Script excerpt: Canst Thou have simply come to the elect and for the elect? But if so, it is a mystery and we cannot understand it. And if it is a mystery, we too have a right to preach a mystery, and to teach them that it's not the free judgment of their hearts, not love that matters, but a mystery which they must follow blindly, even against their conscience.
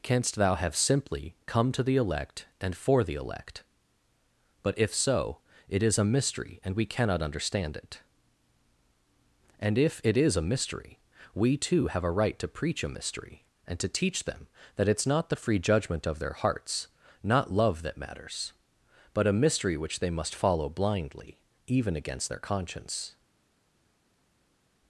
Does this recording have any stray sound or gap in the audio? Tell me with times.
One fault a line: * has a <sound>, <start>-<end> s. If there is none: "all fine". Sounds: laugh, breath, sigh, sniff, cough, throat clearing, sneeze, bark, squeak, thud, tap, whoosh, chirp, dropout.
all fine